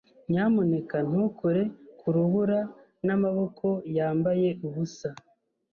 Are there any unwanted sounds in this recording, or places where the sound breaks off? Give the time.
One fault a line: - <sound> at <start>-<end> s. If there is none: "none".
none